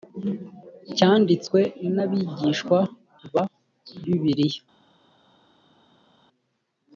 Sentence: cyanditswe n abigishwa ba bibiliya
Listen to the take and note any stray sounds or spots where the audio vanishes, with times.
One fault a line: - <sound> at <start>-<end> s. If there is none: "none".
none